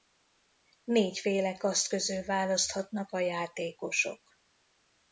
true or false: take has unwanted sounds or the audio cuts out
false